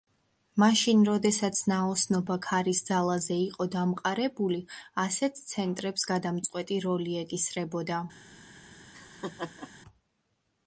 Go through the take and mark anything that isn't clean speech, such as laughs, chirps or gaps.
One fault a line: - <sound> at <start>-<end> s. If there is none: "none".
- laugh at 8.9-9.7 s